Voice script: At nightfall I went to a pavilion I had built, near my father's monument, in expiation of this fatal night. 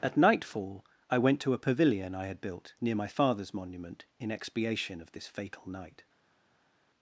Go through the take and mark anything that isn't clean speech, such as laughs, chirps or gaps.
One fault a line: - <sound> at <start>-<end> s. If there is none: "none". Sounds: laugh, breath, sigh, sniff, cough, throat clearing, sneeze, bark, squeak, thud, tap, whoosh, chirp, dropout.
none